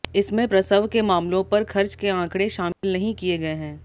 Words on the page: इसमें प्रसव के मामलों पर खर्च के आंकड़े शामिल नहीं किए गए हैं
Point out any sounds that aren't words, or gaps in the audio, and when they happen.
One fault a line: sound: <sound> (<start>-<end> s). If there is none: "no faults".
sound: dropout (2.7-2.8 s)